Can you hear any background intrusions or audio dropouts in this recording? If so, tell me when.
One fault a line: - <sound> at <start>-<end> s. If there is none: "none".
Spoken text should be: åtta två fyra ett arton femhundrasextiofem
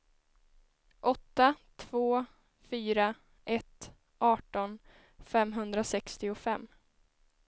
none